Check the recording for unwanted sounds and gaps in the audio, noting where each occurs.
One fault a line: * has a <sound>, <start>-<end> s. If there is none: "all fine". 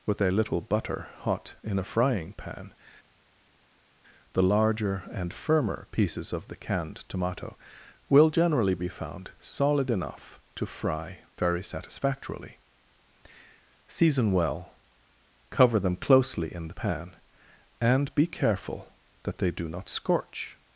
all fine